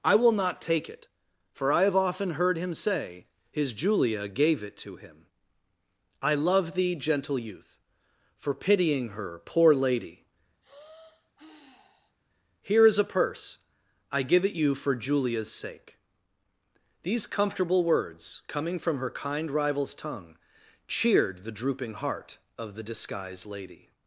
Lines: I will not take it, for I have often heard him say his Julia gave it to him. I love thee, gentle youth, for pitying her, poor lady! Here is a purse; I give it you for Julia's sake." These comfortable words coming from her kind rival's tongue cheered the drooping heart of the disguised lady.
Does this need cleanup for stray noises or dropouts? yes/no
yes